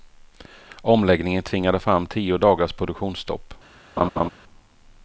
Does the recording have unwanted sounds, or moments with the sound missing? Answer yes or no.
yes